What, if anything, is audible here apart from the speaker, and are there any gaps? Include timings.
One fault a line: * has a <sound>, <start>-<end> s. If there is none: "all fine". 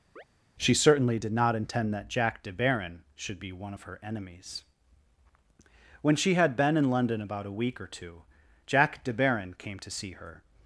* has a chirp, 0.2-0.2 s